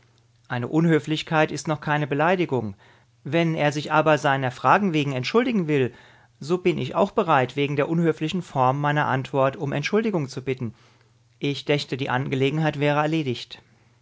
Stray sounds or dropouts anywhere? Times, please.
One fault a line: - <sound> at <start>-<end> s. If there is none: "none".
none